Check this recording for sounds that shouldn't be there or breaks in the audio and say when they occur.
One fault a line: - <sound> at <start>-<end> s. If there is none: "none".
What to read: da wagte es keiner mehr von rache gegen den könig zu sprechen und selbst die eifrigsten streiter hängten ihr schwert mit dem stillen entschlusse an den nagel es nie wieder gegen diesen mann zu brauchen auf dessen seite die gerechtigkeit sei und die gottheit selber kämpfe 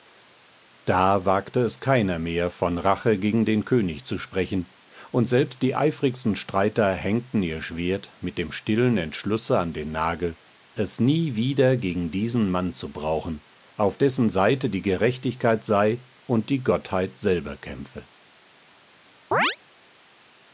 - chirp at 19.3-19.6 s